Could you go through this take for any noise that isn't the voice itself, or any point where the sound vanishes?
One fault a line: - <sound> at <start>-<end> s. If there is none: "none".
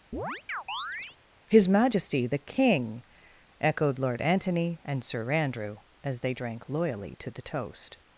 - chirp at 0.1-1.2 s